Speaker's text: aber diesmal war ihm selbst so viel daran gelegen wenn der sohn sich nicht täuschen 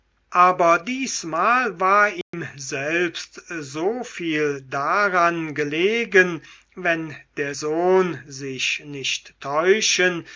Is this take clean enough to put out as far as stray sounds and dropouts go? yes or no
no